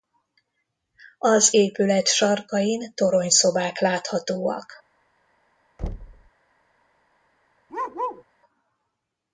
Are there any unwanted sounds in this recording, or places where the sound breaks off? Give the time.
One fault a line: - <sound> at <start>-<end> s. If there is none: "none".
- thud at 5.8-6.3 s
- bark at 7.7-8.2 s